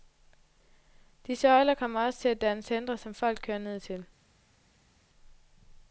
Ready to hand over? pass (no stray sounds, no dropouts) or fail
pass